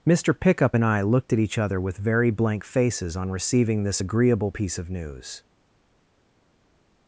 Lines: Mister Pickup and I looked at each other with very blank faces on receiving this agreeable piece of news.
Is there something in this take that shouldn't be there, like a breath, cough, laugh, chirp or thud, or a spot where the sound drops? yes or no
no